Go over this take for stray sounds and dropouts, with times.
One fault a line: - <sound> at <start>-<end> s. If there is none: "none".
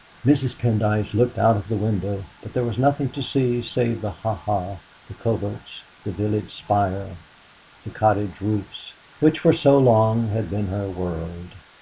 none